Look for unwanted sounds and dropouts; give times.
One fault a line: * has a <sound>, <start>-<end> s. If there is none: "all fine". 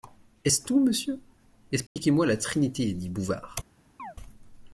* has a dropout, 1.9-2.0 s
* has a chirp, 4.0-4.2 s